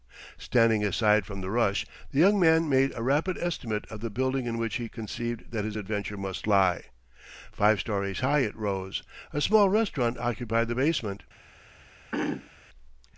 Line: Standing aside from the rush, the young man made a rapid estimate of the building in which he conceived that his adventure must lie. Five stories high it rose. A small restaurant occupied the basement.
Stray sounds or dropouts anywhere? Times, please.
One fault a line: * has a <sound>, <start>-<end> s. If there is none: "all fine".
* has a throat clearing, 12.1-12.5 s